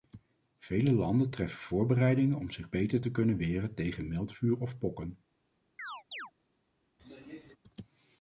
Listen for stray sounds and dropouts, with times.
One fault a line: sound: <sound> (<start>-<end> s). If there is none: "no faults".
sound: chirp (5.8-6.3 s)
sound: throat clearing (7.0-7.6 s)